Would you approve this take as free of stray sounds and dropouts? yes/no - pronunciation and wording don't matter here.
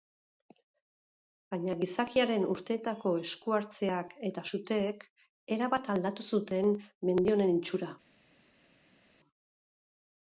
yes